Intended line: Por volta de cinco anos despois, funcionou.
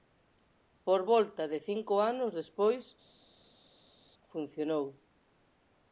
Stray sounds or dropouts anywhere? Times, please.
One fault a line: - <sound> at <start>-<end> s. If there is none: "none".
none